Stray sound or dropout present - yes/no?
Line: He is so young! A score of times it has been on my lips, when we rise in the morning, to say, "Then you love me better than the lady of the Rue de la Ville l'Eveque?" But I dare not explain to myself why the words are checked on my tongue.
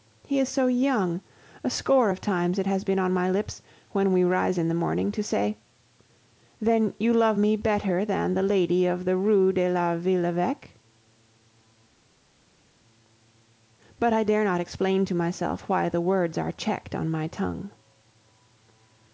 no